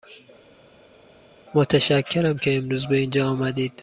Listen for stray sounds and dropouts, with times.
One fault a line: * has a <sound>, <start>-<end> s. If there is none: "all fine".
all fine